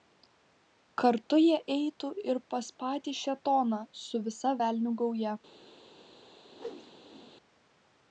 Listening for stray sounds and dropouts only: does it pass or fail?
fail